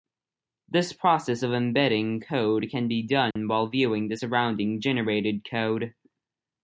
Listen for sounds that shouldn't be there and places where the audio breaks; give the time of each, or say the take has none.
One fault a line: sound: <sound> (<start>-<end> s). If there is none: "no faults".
sound: dropout (3.3-3.4 s)